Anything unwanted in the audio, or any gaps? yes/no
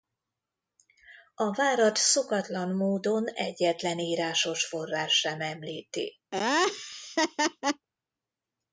yes